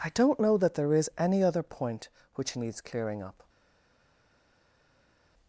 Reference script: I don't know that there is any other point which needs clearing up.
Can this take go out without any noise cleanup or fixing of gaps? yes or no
yes